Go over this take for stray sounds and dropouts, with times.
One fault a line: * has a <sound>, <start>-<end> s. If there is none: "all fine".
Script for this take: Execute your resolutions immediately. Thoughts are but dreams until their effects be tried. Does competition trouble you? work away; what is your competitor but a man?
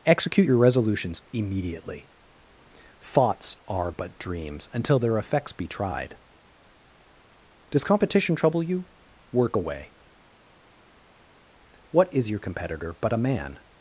all fine